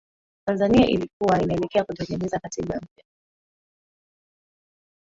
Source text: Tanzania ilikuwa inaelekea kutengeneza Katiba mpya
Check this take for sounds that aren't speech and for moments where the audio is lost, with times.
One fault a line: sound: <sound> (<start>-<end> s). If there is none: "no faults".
no faults